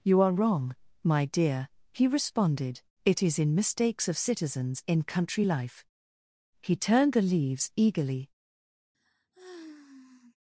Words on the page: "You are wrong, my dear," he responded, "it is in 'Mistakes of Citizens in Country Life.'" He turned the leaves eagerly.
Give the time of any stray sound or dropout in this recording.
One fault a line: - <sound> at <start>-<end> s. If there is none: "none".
- sigh at 8.9-10.4 s